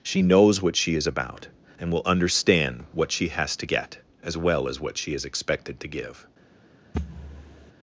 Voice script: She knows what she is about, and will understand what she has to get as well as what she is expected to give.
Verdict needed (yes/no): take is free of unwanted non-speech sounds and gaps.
no